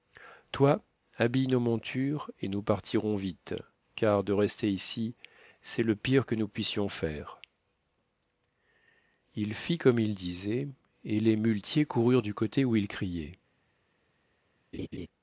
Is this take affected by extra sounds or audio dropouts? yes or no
yes